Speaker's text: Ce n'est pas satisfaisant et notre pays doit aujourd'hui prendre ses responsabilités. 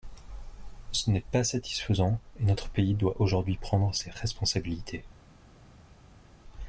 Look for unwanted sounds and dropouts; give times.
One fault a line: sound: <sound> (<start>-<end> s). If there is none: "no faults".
no faults